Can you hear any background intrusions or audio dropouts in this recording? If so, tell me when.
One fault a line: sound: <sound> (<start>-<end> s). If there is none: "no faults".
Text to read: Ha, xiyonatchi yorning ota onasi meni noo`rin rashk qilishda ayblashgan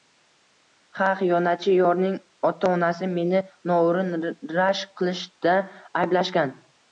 no faults